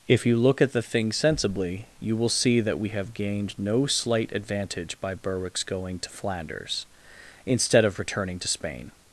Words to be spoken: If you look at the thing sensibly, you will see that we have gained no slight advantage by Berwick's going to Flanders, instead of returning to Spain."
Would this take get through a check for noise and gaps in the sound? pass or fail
pass